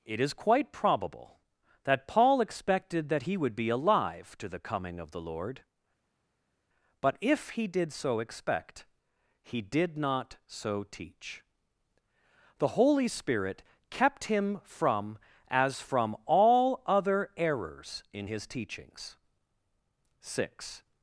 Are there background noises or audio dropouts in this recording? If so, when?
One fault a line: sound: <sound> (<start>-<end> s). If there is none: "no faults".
no faults